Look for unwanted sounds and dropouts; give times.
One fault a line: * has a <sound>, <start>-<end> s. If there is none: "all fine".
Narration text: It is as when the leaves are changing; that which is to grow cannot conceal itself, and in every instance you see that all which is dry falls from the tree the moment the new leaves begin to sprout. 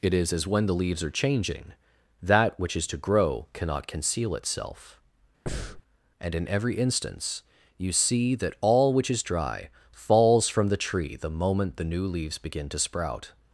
* has a breath, 5.5-5.8 s